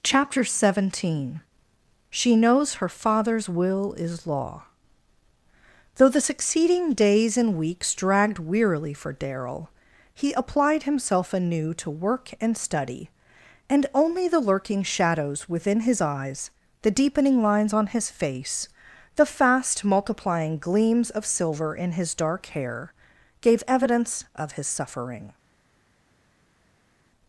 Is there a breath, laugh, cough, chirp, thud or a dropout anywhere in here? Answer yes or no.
no